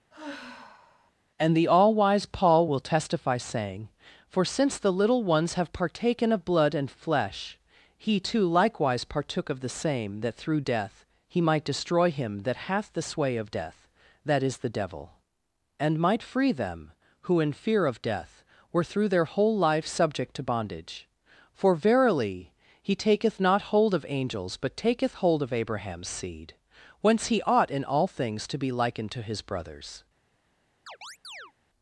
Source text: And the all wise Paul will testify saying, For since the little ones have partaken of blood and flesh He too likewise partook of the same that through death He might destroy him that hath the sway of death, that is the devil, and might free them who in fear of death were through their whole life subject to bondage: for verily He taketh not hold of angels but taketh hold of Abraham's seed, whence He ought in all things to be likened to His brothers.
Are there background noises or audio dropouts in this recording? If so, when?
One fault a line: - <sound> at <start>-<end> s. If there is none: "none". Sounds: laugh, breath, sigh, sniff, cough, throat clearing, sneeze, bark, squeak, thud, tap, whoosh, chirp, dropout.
- sigh at 0.1-1.1 s
- chirp at 30.9-31.5 s